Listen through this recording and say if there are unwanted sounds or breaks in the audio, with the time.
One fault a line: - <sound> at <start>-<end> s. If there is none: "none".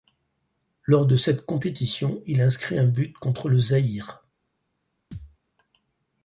- thud at 5.1-5.4 s